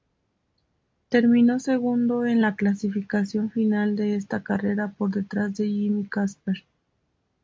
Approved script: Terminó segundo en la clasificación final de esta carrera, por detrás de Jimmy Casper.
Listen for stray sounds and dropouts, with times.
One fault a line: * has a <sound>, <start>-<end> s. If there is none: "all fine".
all fine